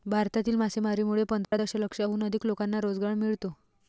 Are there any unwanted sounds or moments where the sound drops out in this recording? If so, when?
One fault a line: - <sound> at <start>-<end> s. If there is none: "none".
- dropout at 1.4-1.5 s